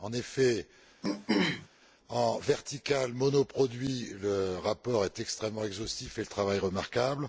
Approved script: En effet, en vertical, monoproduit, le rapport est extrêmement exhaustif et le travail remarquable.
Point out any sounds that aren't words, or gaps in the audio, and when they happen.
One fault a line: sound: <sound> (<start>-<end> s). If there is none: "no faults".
sound: throat clearing (1.0-1.7 s)